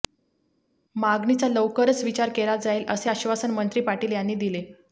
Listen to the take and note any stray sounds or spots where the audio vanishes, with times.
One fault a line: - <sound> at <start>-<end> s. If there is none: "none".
none